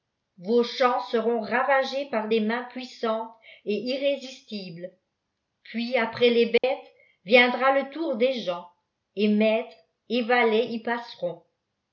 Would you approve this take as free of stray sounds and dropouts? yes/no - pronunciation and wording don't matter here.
no